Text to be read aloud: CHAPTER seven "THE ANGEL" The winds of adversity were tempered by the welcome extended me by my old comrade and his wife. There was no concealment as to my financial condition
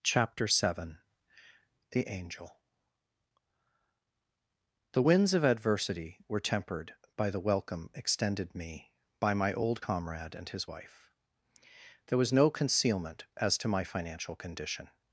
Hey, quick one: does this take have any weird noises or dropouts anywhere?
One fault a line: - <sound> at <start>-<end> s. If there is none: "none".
none